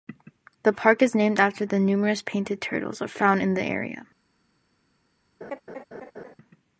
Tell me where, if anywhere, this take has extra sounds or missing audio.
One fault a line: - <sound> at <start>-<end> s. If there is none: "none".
- laugh at 5.4-6.4 s